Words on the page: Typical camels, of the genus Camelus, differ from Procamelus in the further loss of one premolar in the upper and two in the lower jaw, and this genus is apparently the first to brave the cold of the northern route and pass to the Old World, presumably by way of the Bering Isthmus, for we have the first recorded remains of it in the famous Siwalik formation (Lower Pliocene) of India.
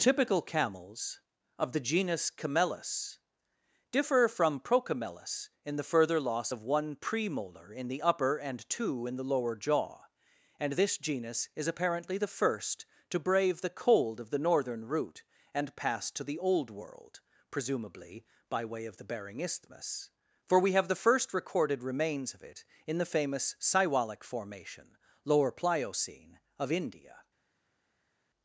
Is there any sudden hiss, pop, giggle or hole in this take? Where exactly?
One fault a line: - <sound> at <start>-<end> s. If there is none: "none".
none